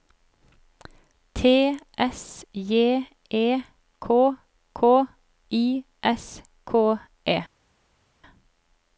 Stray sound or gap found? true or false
false